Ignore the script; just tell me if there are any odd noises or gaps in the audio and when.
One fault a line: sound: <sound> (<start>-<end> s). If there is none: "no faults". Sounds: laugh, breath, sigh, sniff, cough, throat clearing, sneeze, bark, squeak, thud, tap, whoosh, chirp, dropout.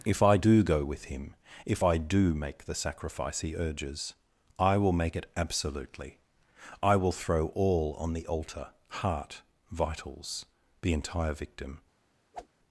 sound: whoosh (12.3-12.5 s)